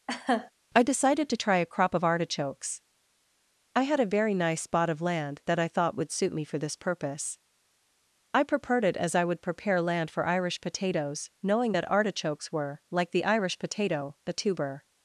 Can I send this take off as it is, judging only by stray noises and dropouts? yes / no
no